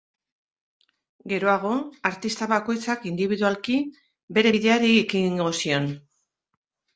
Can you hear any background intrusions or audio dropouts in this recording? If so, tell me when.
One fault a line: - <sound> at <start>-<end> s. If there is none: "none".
none